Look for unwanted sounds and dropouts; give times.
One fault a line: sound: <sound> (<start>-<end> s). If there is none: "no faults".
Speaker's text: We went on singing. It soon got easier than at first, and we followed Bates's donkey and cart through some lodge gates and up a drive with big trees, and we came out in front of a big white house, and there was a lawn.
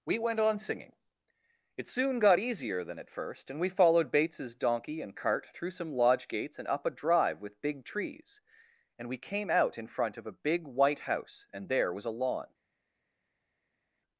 no faults